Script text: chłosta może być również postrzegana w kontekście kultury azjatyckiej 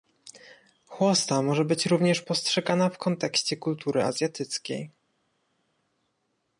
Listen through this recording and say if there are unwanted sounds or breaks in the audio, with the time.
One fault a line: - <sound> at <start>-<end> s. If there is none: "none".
none